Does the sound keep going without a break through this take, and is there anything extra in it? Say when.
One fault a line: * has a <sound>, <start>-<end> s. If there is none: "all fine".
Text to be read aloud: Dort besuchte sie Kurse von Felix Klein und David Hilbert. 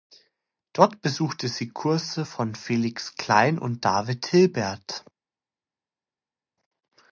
all fine